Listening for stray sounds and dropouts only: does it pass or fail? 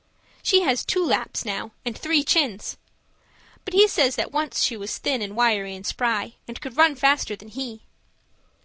pass